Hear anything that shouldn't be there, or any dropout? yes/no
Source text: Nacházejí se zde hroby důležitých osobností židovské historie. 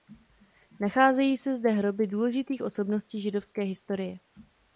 no